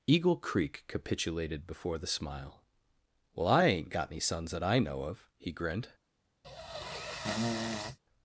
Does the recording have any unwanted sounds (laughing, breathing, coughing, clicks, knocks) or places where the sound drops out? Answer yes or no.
yes